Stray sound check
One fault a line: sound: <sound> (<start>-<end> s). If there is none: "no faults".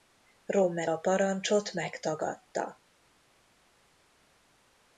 no faults